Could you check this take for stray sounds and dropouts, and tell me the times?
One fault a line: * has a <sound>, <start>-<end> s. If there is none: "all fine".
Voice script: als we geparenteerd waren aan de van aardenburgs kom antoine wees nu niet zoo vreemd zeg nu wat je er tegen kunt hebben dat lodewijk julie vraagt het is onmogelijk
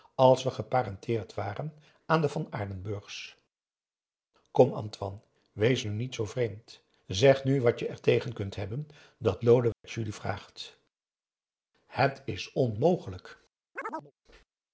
* has a dropout, 9.7-9.8 s
* has a chirp, 13.8-14.1 s